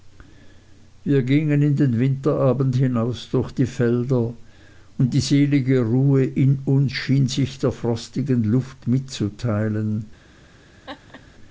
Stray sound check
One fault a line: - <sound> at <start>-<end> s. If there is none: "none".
- laugh at 10.9-11.2 s